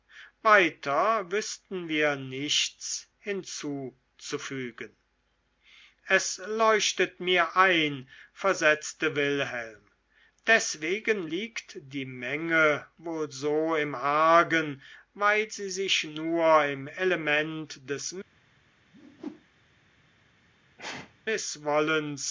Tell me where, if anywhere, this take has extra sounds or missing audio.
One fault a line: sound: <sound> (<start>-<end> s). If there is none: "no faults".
sound: whoosh (18.9-19.4 s)
sound: sneeze (20.8-21.2 s)